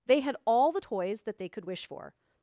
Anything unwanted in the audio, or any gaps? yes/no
no